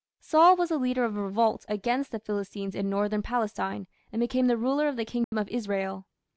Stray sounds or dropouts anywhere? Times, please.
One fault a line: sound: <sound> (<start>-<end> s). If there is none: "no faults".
sound: dropout (5.2-5.3 s)